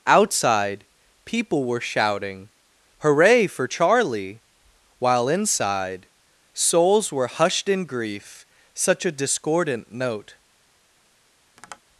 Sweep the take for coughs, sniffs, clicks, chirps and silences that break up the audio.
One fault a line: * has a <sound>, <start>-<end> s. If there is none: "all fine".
* has a tap, 11.6-11.8 s